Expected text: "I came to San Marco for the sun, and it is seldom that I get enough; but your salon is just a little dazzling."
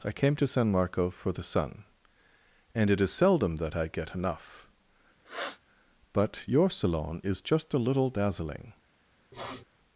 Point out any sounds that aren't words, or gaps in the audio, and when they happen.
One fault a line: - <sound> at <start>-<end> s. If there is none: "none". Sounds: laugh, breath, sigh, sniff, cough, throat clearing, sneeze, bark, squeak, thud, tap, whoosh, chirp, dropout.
- sniff at 5.2-5.6 s
- sniff at 9.3-9.6 s